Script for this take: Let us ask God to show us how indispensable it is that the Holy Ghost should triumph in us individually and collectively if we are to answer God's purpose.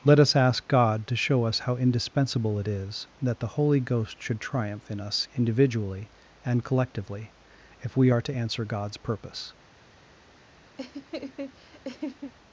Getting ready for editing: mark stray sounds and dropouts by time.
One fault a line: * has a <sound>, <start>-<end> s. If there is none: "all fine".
* has a laugh, 10.8-12.3 s